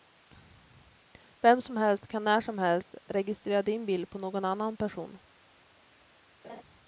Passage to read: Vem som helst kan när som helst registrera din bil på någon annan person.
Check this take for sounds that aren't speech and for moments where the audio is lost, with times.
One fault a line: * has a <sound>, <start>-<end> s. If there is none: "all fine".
* has a laugh, 6.4-6.6 s